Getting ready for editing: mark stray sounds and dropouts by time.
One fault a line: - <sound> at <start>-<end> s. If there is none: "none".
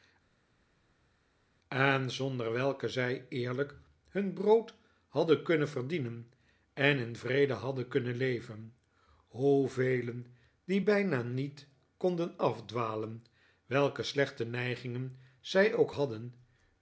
none